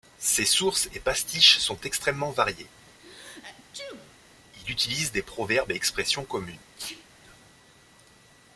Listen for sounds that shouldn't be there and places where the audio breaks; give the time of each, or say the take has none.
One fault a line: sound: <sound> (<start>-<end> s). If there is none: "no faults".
sound: sneeze (3.0-4.2 s)
sound: sneeze (6.8-7.1 s)